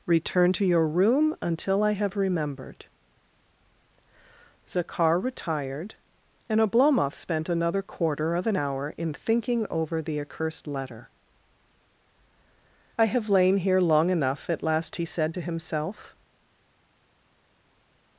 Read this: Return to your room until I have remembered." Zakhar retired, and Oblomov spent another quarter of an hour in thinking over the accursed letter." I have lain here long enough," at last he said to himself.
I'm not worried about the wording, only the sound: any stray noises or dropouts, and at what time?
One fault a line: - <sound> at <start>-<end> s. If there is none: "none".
none